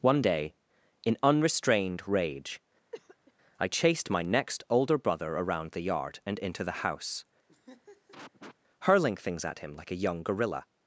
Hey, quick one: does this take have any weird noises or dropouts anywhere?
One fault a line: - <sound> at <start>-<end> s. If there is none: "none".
- cough at 2.9-3.3 s
- laugh at 7.5-8.6 s